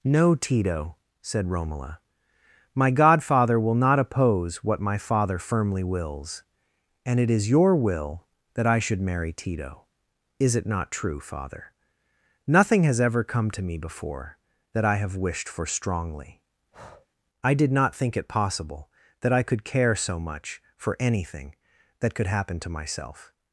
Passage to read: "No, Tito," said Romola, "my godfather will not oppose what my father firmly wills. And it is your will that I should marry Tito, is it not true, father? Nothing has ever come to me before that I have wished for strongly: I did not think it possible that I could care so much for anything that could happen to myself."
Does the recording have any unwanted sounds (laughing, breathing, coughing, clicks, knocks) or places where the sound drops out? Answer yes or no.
yes